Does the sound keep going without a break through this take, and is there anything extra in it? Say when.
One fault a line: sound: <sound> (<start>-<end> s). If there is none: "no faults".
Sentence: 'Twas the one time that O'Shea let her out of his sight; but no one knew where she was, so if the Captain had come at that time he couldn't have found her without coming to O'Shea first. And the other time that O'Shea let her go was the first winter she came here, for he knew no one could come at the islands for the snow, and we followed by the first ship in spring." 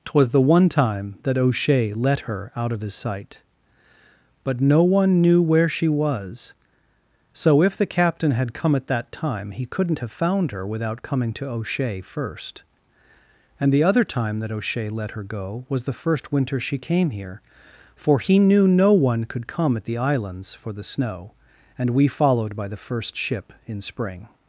no faults